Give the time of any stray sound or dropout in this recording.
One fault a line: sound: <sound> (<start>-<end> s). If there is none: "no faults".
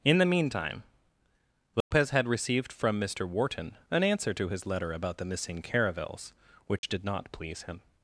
sound: dropout (1.8-1.9 s)
sound: dropout (6.8-6.8 s)